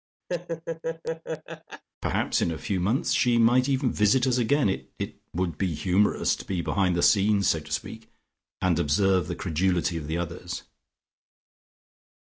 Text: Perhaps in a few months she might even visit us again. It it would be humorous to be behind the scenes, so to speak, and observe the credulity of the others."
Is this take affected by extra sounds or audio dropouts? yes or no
yes